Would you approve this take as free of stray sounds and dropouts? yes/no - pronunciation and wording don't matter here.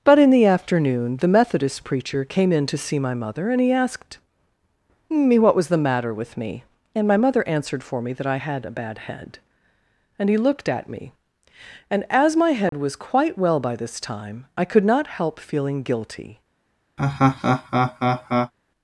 no